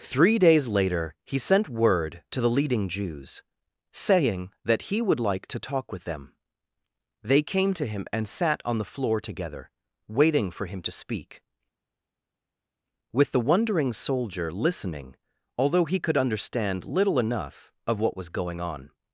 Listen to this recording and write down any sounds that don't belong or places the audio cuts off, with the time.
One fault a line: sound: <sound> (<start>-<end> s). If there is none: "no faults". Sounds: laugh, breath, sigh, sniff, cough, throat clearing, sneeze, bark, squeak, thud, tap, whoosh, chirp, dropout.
no faults